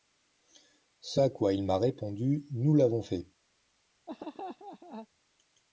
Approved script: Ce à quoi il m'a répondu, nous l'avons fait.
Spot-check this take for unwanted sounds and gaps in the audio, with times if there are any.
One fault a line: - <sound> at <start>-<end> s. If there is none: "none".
- laugh at 4.1-5.1 s